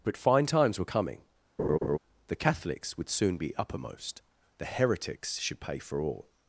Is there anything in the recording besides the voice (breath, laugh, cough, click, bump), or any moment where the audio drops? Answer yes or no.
yes